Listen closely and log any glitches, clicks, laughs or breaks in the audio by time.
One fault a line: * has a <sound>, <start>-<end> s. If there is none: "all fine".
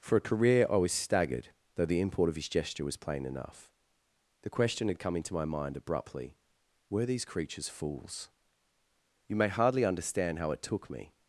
all fine